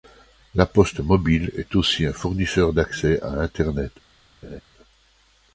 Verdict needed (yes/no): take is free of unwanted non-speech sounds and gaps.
no